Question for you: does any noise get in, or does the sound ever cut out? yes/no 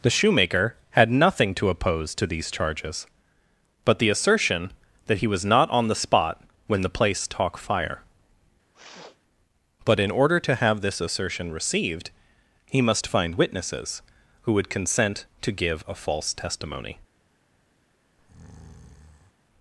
yes